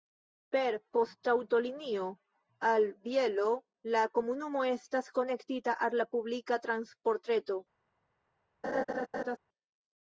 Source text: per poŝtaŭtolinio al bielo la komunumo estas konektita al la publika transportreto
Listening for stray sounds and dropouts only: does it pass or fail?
fail